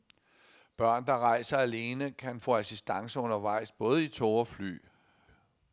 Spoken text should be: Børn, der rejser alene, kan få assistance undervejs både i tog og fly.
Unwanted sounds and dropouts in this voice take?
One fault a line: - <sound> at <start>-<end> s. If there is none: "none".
none